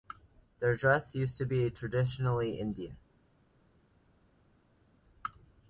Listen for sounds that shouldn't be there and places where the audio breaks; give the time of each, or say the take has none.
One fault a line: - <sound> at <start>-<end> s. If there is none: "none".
none